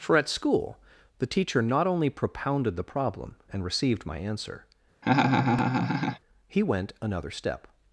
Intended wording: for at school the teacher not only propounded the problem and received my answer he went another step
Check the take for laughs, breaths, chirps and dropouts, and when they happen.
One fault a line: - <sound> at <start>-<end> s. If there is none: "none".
- laugh at 5.0-6.2 s